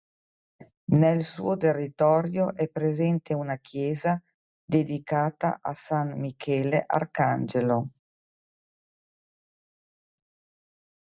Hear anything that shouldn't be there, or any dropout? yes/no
no